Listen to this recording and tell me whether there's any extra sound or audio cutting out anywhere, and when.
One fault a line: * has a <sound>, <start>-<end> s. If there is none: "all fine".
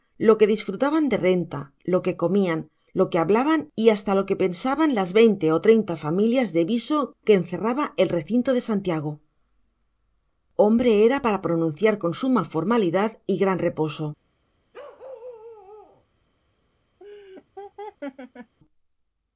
* has a bark, 14.7-16.0 s
* has a laugh, 17.0-18.5 s